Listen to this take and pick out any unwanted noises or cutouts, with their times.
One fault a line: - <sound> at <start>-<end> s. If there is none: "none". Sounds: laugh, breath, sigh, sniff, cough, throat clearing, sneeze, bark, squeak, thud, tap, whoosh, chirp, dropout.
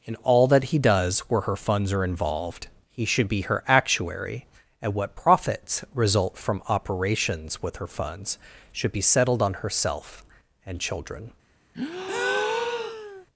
- breath at 11.7-13.3 s